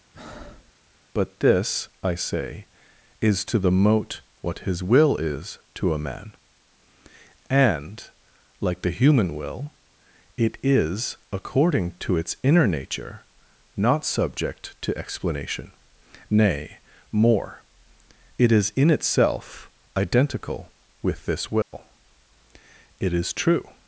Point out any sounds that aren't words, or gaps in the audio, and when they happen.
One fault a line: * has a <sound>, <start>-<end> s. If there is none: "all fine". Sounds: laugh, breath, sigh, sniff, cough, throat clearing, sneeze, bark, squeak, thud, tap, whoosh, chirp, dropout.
* has a breath, 0.1-0.7 s
* has a dropout, 21.6-21.7 s